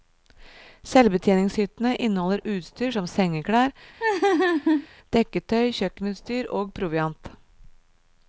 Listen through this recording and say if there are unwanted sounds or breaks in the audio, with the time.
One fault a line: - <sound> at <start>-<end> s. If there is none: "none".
- laugh at 4.0-4.9 s